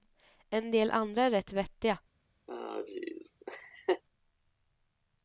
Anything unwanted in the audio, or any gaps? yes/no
yes